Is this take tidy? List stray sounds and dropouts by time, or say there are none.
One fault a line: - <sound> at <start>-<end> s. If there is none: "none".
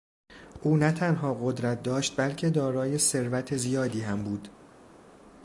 none